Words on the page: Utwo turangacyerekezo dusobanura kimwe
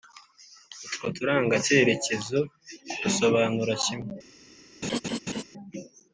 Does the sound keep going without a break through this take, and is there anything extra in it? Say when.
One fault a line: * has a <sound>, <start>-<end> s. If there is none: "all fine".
* has a laugh, 4.8-5.4 s